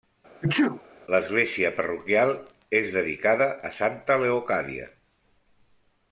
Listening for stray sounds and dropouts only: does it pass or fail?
fail